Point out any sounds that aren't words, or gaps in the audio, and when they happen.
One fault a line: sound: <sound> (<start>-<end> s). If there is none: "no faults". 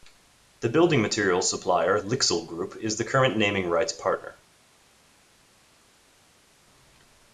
no faults